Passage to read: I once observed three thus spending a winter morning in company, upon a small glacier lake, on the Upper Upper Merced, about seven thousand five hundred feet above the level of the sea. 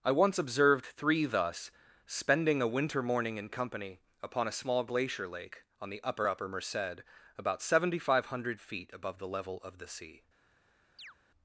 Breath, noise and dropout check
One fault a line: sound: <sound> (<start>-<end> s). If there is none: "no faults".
sound: chirp (11.0-11.1 s)